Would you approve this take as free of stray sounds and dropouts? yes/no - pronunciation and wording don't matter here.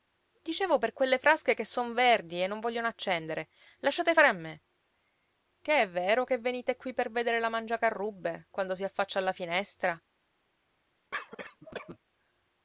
no